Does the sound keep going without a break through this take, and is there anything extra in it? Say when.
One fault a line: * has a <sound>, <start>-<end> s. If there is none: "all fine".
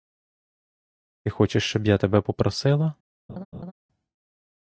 * has a laugh, 3.3-3.7 s